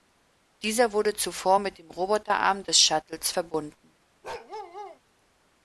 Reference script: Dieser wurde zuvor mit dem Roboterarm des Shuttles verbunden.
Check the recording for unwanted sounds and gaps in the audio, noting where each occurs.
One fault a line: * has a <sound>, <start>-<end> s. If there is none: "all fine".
* has a bark, 4.2-5.0 s